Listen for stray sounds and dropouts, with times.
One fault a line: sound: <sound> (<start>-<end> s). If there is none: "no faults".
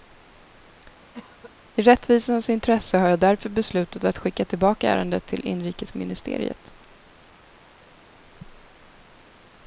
sound: cough (1.1-1.5 s)